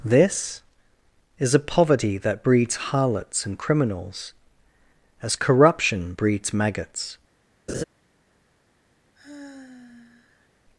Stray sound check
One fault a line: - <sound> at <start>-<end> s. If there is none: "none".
- laugh at 7.7-7.8 s
- sigh at 9.2-10.5 s